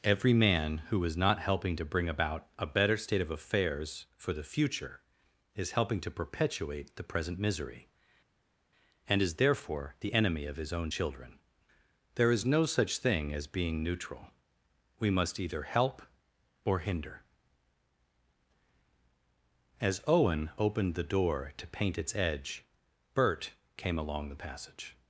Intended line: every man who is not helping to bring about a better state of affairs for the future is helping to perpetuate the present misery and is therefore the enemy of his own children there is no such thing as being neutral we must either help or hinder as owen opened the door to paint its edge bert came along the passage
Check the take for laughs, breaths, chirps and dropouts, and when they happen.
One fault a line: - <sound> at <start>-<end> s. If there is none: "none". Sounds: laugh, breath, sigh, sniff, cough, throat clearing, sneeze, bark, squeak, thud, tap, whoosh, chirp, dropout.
none